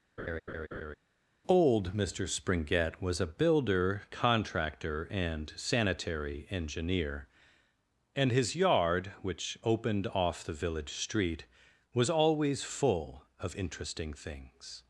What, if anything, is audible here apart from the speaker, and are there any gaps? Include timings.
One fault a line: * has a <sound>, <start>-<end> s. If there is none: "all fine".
* has a laugh, 0.2-1.0 s